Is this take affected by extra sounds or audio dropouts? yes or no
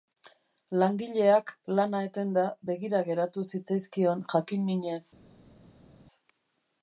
no